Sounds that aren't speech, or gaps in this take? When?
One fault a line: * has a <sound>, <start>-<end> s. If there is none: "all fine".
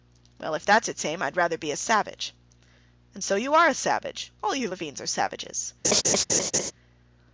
* has a laugh, 5.8-6.7 s